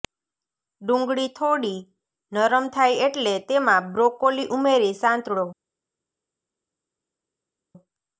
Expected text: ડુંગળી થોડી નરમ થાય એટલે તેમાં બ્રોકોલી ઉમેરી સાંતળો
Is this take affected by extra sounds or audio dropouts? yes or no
no